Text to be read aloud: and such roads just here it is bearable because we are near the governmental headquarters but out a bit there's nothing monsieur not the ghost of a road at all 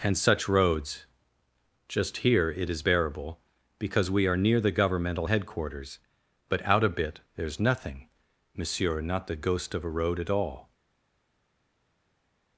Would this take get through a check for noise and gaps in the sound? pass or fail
pass